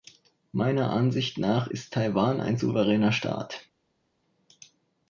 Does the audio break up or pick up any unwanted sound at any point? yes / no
no